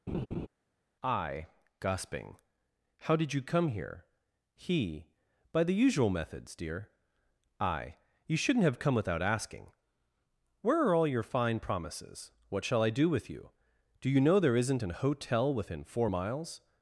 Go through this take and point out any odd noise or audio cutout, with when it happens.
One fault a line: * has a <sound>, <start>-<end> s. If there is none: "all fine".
* has a laugh, 0.1-0.5 s